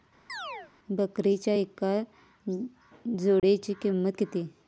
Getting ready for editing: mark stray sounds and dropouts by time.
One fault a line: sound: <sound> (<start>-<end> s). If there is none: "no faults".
sound: chirp (0.3-0.7 s)
sound: dropout (3.4-3.4 s)